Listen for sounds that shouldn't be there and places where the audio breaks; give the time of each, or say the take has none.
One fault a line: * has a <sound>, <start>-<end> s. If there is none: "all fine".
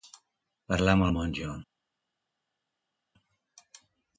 all fine